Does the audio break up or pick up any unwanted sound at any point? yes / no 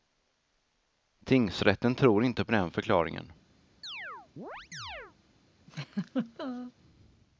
yes